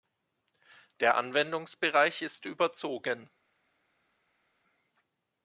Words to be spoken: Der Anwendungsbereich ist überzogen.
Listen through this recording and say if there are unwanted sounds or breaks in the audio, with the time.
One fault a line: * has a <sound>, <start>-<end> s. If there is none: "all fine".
all fine